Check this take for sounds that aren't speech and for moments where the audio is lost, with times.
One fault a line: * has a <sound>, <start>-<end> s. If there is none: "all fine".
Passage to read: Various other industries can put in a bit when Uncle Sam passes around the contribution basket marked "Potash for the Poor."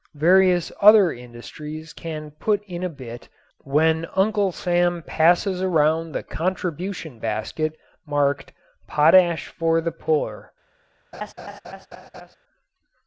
* has a laugh, 11.1-12.4 s